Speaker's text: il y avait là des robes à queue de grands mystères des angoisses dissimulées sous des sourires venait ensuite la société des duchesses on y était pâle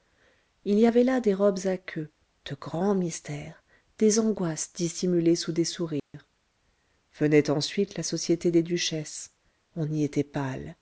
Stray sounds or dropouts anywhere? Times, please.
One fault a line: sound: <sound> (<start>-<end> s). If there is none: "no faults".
sound: dropout (6.0-6.1 s)